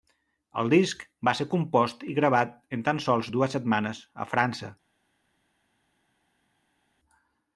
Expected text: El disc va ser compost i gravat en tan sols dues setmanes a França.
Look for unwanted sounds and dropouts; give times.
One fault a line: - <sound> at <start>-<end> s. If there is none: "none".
none